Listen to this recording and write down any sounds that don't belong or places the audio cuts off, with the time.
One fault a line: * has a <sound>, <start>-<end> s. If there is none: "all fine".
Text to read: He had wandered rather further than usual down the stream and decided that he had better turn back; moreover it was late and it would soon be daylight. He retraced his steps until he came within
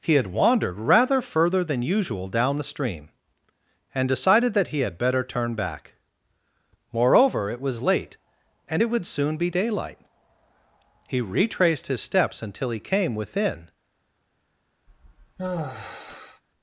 * has a sigh, 14.9-16.4 s